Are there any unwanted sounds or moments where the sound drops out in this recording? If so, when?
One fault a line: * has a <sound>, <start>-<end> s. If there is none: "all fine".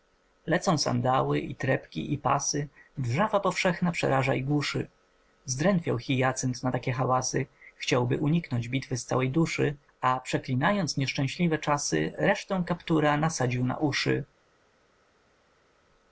all fine